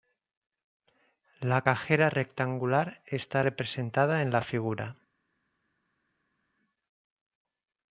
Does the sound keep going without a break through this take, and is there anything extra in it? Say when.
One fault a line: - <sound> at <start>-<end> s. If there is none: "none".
none